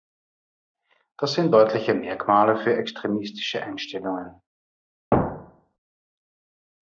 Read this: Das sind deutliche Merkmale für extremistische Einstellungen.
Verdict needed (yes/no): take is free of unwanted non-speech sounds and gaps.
no